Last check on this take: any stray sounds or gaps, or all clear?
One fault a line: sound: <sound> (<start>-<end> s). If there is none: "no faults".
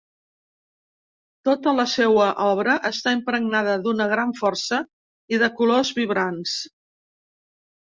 no faults